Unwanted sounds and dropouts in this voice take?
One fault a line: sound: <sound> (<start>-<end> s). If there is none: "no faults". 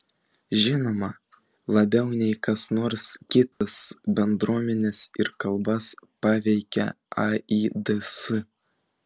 sound: dropout (3.5-3.6 s)